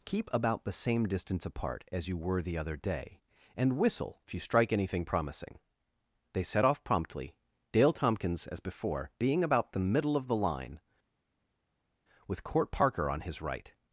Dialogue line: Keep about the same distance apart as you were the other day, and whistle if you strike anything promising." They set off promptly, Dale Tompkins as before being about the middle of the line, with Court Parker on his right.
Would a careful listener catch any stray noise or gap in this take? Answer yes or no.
no